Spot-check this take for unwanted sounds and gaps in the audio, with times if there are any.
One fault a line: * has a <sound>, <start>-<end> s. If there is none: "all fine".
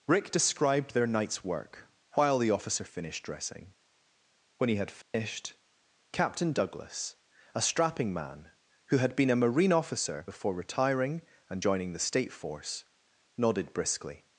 * has a dropout, 5.0-5.1 s